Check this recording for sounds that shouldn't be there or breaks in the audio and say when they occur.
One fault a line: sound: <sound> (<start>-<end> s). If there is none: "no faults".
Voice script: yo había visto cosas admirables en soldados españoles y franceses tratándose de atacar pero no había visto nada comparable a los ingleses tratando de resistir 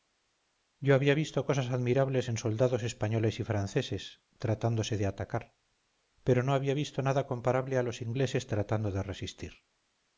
no faults